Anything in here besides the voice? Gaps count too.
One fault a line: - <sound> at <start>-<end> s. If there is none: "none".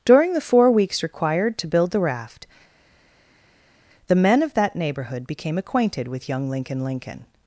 none